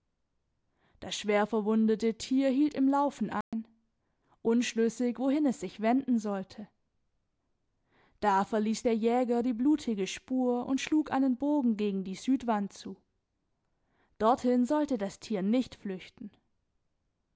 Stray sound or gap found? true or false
true